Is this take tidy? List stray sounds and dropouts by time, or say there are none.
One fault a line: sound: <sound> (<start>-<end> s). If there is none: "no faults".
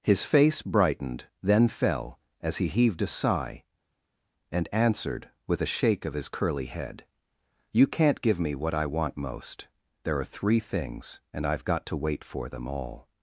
no faults